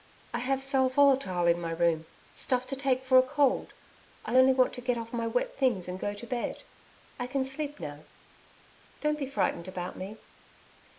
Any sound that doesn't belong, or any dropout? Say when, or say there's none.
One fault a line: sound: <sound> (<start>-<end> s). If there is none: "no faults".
no faults